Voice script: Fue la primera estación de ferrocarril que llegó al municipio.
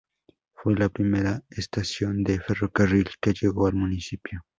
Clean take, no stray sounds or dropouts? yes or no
yes